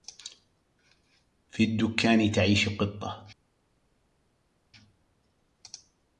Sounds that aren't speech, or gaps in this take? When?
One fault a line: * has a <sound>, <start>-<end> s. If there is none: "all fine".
all fine